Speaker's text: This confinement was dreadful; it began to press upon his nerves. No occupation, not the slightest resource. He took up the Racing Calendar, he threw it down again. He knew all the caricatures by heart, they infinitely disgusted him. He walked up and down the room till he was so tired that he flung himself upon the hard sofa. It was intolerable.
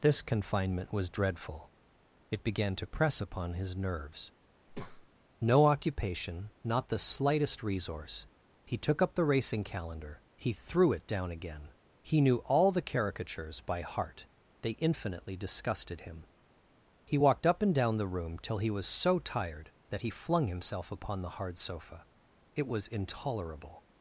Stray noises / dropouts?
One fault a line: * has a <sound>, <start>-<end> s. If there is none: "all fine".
* has a breath, 4.7-5.1 s